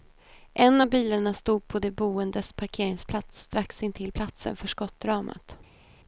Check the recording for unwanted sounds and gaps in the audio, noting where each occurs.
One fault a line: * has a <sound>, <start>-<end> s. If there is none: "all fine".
all fine